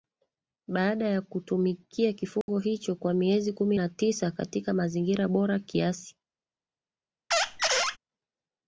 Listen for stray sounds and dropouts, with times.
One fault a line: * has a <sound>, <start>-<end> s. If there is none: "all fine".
* has a dropout, 2.4-2.5 s
* has a squeak, 7.3-8.0 s